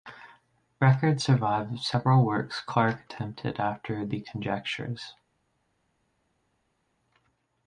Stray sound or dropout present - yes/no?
no